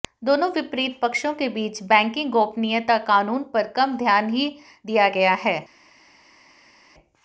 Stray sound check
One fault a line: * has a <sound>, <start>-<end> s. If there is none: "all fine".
all fine